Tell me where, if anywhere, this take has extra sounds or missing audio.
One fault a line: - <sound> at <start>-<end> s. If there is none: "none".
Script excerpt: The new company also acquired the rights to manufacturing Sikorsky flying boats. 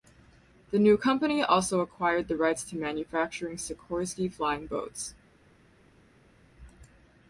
none